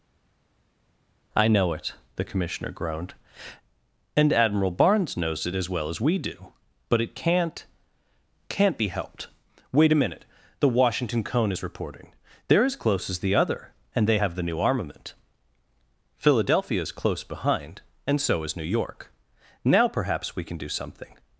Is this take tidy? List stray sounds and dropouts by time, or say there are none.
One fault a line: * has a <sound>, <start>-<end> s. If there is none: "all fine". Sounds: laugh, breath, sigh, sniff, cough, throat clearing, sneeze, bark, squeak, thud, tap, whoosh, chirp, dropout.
all fine